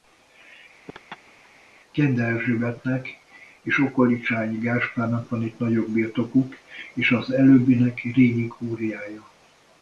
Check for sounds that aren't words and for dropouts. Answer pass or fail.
fail